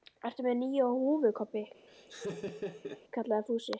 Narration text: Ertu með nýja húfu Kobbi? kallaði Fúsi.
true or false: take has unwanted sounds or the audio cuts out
true